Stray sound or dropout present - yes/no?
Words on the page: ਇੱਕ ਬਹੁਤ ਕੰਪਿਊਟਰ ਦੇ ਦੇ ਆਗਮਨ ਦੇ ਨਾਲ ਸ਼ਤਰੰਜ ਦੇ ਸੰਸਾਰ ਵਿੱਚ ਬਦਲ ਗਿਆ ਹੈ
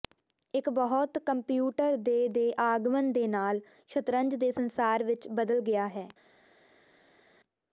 no